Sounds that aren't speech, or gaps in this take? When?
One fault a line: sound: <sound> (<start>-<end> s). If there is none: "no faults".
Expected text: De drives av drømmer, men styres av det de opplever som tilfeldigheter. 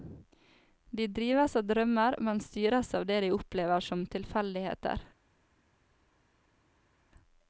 no faults